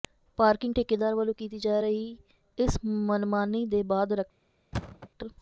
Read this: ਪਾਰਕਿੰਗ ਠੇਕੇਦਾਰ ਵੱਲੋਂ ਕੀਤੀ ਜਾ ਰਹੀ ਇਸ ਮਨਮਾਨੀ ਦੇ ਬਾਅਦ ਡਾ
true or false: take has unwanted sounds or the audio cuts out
true